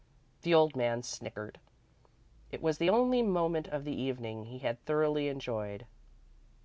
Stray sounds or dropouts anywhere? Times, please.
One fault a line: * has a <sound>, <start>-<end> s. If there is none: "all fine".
all fine